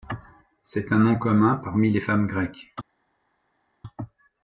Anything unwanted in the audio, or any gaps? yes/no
no